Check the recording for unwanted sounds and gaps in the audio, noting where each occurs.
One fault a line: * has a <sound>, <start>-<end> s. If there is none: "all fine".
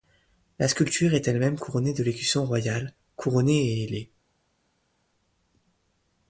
all fine